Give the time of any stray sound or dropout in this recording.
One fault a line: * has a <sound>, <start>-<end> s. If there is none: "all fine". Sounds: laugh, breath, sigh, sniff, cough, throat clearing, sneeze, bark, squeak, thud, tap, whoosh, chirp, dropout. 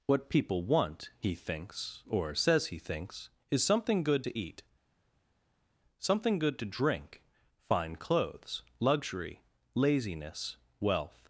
all fine